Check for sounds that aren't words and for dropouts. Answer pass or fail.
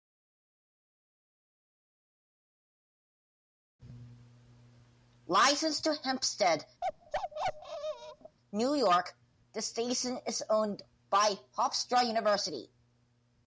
fail